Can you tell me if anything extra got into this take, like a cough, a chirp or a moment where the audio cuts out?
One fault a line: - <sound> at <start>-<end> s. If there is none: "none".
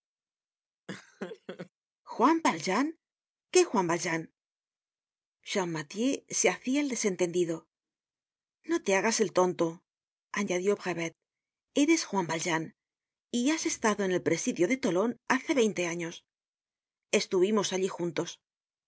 - laugh at 0.9-1.7 s